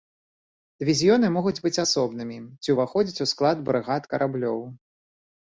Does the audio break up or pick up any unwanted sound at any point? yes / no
no